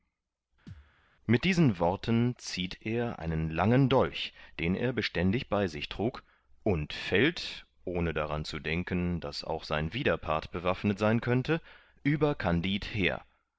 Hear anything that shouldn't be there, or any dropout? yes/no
yes